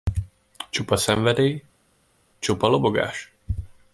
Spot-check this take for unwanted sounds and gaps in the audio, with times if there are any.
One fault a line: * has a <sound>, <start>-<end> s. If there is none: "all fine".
all fine